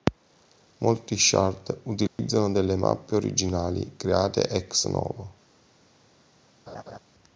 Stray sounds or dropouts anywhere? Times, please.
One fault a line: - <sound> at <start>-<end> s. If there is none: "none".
- dropout at 2.1-2.2 s
- laugh at 6.7-7.0 s